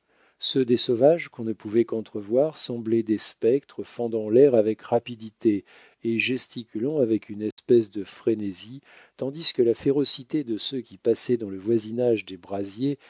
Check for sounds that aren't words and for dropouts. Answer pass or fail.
fail